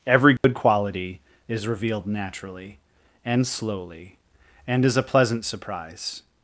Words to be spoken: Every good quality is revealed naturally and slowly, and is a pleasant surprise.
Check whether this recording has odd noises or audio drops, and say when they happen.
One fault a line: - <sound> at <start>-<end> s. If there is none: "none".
- dropout at 0.4-0.4 s